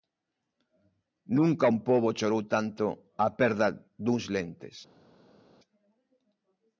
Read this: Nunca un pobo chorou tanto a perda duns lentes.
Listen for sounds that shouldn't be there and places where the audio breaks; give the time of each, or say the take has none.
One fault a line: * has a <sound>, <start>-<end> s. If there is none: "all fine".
all fine